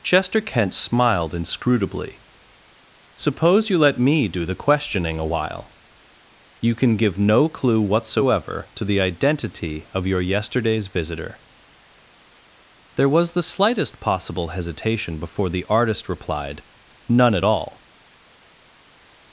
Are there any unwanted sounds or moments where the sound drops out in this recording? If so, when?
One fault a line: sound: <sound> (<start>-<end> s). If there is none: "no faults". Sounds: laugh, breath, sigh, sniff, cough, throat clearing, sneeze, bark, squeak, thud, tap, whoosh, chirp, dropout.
no faults